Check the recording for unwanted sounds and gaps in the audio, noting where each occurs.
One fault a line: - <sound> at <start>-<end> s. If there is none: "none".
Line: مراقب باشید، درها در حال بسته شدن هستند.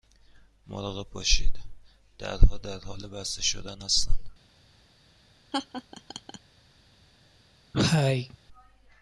- laugh at 5.5-6.4 s
- cough at 7.7-8.4 s